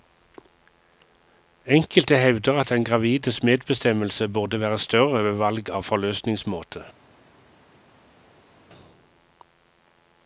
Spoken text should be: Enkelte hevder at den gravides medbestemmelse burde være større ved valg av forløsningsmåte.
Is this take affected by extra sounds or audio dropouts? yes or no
no